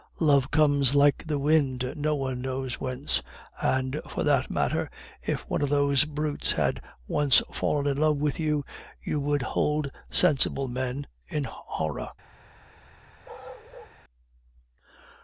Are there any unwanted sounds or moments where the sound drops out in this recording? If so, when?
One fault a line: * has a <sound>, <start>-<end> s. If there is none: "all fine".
* has a bark, 13.2-14.0 s